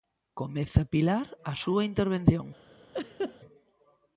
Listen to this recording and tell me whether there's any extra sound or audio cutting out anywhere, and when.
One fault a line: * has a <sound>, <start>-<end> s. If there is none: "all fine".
* has a laugh, 2.9-3.4 s